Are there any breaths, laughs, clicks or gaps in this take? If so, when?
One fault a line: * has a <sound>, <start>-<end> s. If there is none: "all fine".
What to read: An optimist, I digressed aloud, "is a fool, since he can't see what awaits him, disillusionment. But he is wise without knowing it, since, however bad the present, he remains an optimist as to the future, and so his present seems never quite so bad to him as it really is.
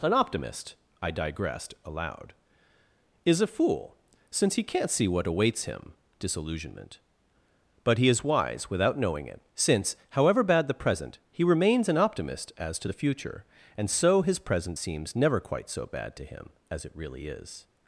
all fine